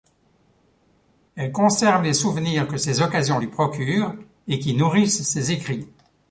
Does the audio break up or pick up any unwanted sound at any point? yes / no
no